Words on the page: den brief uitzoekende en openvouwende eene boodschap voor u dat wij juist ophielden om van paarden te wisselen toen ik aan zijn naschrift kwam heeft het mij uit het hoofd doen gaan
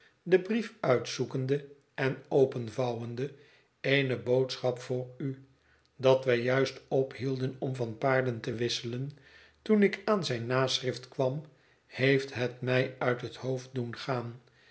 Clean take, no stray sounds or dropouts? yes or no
yes